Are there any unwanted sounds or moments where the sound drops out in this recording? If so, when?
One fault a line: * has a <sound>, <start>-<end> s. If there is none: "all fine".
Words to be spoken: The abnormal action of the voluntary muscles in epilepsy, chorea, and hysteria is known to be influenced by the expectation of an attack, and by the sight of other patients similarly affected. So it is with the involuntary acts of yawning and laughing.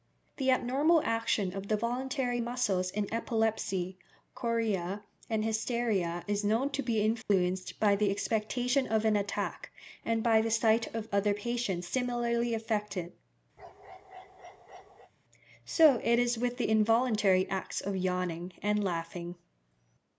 * has a dropout, 7.2-7.3 s
* has a bark, 13.6-15.1 s